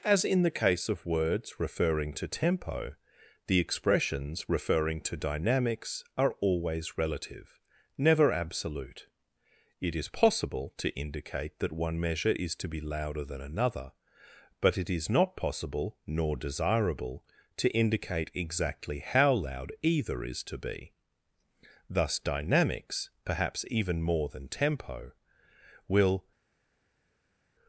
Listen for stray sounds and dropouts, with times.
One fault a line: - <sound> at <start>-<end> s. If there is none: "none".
none